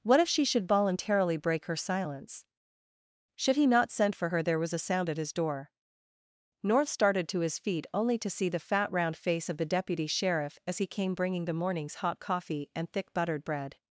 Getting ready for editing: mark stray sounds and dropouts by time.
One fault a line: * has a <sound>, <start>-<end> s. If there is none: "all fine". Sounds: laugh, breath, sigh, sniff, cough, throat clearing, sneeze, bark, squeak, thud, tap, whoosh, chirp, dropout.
all fine